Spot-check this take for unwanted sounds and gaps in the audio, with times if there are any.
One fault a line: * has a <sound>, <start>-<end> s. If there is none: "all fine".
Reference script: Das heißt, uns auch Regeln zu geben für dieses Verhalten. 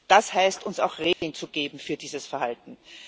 * has a dropout, 1.1-1.2 s